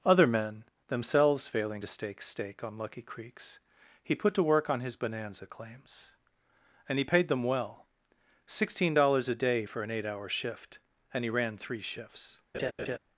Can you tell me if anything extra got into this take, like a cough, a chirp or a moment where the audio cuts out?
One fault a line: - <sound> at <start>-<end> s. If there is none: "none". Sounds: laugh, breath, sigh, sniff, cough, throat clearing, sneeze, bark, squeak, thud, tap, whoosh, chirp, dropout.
- laugh at 12.5-13.0 s